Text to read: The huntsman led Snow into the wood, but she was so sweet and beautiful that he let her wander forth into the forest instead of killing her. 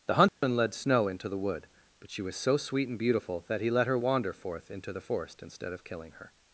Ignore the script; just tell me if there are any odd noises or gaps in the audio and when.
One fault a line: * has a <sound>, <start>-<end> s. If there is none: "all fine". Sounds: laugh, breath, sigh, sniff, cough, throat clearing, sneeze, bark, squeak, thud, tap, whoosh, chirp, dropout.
* has a dropout, 0.3-0.4 s